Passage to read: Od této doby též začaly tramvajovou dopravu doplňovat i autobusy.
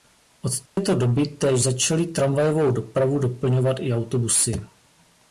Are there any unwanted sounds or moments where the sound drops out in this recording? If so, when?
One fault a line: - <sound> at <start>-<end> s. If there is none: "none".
- dropout at 0.7-0.8 s